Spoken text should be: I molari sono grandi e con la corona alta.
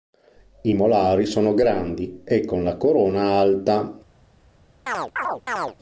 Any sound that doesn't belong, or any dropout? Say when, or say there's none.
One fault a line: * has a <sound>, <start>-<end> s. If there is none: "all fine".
* has a chirp, 4.9-5.8 s